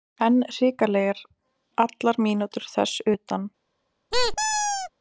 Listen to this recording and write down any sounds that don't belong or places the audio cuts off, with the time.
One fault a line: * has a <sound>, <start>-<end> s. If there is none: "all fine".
* has a squeak, 4.1-4.9 s